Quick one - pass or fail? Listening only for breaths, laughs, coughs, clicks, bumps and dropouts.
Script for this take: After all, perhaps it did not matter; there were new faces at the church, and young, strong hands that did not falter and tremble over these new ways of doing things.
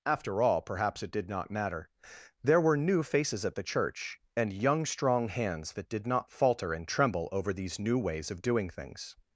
pass